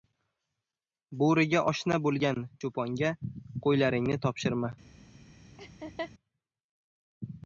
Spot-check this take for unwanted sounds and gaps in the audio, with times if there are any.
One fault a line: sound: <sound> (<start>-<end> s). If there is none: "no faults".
sound: laugh (5.6-6.1 s)